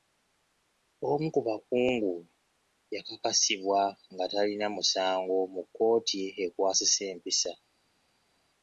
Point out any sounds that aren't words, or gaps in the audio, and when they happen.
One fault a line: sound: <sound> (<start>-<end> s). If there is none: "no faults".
no faults